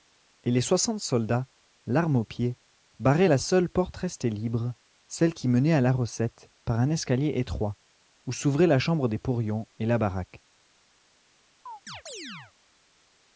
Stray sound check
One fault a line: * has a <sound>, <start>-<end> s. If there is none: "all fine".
* has a chirp, 11.7-12.5 s